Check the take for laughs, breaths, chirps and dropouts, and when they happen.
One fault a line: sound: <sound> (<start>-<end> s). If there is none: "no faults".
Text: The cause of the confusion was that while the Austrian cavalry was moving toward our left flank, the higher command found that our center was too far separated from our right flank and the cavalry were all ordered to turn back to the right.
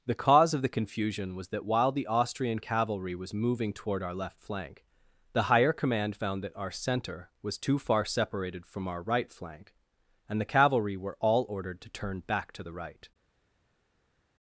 no faults